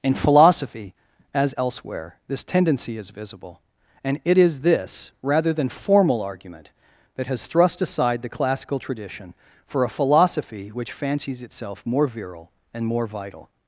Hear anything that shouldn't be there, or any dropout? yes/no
no